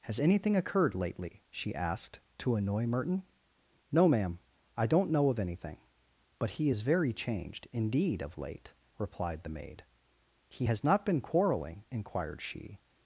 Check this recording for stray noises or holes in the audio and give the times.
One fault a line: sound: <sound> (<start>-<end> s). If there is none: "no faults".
no faults